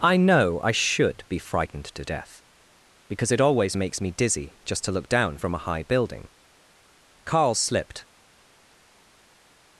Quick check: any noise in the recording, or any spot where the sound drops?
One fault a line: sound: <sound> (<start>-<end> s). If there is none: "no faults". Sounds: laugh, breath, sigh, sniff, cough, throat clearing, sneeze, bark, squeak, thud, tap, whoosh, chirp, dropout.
no faults